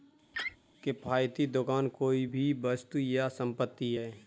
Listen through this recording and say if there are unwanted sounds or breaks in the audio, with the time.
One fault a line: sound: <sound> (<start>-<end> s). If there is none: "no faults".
sound: laugh (0.3-0.6 s)